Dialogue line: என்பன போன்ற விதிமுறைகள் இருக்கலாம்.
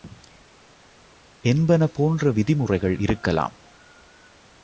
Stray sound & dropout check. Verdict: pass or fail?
pass